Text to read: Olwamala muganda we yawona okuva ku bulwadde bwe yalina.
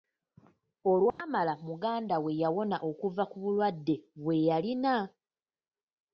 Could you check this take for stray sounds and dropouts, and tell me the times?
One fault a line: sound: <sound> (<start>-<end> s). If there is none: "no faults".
sound: dropout (1.1-1.2 s)